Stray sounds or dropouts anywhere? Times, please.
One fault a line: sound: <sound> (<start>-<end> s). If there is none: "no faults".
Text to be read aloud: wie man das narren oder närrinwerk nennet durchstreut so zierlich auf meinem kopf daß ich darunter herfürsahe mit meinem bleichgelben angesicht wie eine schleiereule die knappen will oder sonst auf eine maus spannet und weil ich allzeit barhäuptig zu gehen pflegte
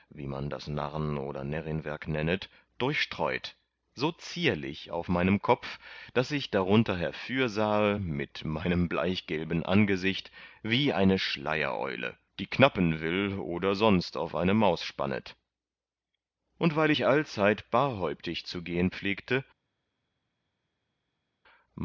no faults